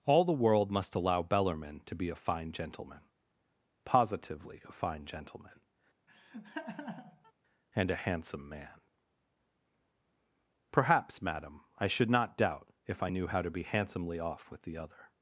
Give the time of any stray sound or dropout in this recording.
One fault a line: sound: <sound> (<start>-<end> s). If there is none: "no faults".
sound: laugh (6.1-7.3 s)